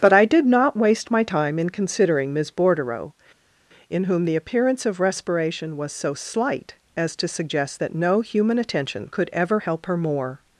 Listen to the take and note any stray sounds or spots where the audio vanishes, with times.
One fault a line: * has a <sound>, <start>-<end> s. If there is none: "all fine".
all fine